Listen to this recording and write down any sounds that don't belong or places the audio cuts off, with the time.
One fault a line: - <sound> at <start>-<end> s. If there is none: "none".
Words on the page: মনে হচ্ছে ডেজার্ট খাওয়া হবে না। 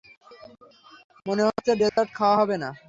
- dropout at 1.9-2.0 s